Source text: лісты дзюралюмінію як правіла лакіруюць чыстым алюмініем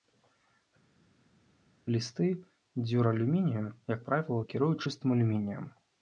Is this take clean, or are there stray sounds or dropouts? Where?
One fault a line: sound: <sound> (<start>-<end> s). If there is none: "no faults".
no faults